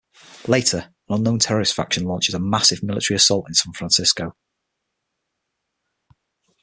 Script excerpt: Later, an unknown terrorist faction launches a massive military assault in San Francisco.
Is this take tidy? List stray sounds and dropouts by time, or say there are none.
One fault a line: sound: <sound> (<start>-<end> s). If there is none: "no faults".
no faults